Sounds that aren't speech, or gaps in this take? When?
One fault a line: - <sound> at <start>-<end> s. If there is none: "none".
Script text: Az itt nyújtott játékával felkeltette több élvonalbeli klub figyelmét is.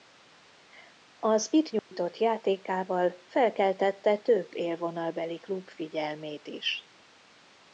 - dropout at 1.8-1.9 s